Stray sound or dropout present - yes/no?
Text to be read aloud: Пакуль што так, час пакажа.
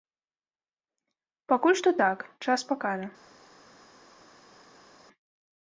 no